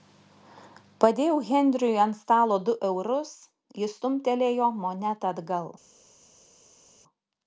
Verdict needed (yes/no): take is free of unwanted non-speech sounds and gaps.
yes